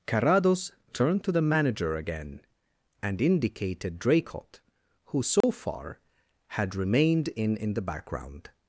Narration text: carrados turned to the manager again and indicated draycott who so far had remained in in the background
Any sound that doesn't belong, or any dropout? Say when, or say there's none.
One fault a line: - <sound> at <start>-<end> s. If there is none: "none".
- dropout at 5.4-5.4 s